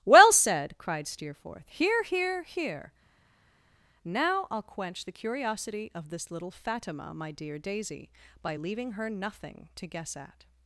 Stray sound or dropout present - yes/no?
no